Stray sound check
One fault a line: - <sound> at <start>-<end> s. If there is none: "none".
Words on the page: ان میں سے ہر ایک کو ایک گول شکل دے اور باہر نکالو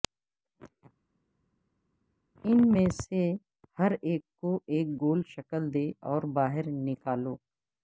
none